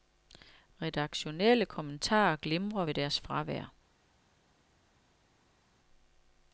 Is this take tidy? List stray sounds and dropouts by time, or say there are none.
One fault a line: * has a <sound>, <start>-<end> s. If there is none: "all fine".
all fine